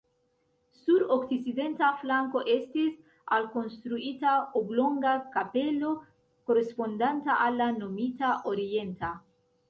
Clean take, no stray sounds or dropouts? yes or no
yes